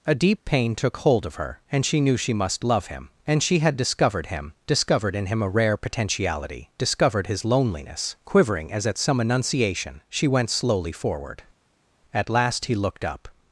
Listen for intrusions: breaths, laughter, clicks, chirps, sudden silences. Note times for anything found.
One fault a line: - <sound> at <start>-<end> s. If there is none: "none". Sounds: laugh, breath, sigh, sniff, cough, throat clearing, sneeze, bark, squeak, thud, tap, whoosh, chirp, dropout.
none